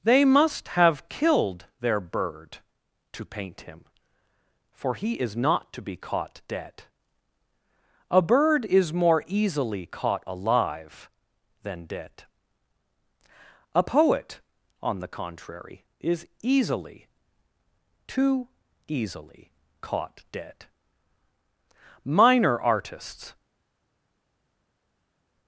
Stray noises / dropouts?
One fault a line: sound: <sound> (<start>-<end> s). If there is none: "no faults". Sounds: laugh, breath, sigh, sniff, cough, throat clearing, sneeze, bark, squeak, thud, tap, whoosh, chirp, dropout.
no faults